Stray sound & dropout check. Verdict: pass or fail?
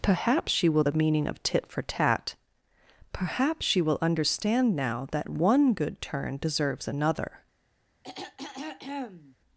fail